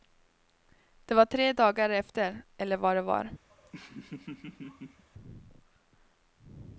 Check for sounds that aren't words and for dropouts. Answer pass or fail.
fail